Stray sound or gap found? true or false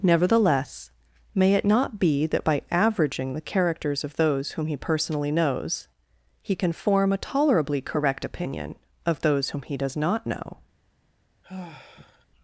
true